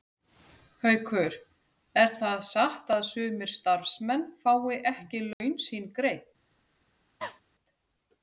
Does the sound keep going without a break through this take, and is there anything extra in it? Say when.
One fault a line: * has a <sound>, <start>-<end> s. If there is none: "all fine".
* has a dropout, 5.3-5.4 s
* has a cough, 7.2-7.4 s